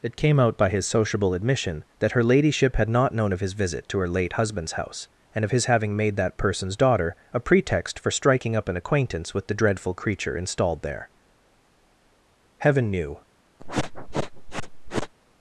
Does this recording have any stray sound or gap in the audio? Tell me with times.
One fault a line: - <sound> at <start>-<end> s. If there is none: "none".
- sniff at 13.6-15.1 s